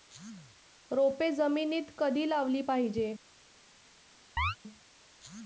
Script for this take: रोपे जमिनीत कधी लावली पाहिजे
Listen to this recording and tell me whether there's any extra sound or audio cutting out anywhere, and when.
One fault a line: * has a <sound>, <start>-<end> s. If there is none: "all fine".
* has a chirp, 4.4-4.6 s